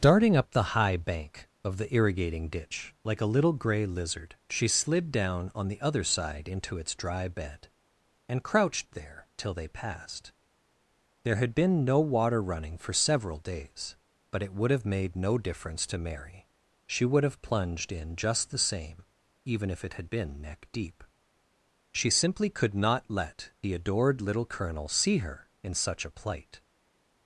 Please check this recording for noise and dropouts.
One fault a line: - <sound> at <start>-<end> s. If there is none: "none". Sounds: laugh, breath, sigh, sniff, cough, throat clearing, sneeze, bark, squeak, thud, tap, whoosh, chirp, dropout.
none